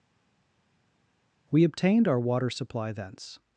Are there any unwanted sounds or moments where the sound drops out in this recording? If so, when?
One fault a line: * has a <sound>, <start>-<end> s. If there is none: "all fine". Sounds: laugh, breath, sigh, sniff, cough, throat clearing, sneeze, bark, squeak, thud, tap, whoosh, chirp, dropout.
all fine